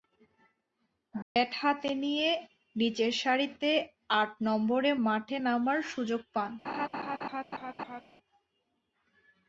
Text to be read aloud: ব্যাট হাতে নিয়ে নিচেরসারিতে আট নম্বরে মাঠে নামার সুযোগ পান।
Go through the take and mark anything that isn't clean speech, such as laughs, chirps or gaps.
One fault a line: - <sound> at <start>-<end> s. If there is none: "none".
- dropout at 1.2-1.4 s
- laugh at 6.6-8.0 s